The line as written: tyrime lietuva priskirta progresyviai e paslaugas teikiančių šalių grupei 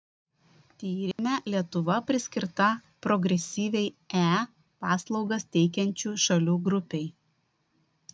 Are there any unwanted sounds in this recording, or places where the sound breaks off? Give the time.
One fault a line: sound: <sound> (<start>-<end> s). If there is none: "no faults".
sound: dropout (1.1-1.2 s)